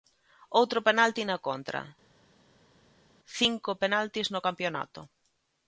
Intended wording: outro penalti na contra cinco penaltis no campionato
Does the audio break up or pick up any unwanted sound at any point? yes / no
no